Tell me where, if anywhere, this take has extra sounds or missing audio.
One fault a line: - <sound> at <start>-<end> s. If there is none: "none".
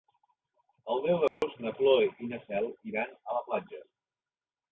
- dropout at 1.3-1.4 s